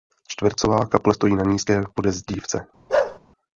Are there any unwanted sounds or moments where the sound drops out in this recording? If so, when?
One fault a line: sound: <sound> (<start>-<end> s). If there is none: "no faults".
sound: bark (2.9-3.2 s)